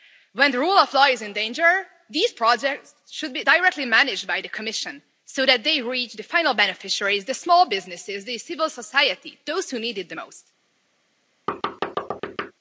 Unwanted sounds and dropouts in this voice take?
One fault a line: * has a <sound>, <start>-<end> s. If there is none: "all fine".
* has a thud, 11.5-12.5 s